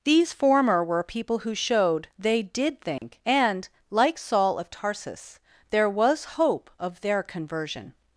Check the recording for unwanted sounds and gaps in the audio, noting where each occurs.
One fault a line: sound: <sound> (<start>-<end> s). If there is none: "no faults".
sound: dropout (3.0-3.0 s)